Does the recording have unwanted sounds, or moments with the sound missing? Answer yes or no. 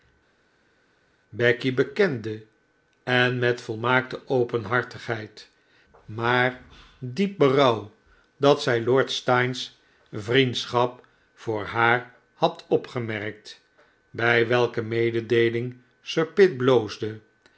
no